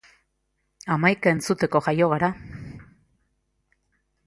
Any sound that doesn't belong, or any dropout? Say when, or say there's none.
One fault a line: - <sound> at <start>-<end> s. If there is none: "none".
none